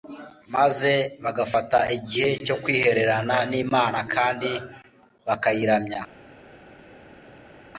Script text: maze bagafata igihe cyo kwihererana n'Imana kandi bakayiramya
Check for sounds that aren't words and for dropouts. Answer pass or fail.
pass